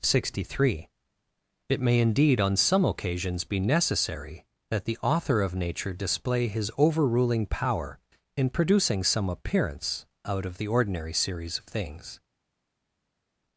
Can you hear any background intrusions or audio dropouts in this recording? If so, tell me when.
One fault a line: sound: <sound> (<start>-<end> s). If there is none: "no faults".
no faults